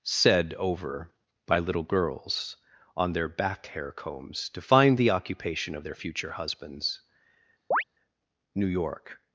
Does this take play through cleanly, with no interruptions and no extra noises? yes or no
no